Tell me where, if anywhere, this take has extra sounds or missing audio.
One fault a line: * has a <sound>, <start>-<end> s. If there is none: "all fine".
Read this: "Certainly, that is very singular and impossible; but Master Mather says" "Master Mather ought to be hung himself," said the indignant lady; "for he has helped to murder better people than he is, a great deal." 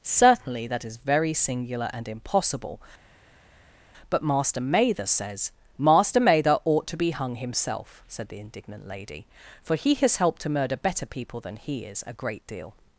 all fine